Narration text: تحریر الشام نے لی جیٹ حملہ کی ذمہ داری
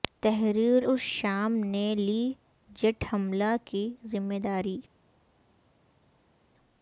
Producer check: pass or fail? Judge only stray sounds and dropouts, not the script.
pass